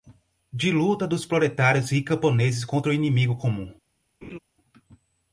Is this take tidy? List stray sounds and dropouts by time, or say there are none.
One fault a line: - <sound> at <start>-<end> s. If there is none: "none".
- laugh at 4.2-4.4 s